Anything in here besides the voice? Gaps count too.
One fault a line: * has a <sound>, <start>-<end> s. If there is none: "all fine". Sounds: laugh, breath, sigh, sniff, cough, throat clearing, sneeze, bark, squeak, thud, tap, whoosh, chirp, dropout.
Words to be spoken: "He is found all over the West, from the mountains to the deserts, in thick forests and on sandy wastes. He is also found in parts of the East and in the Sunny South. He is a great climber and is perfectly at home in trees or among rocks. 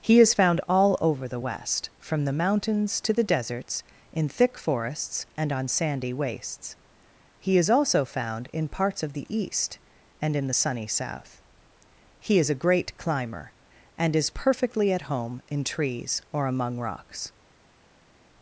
all fine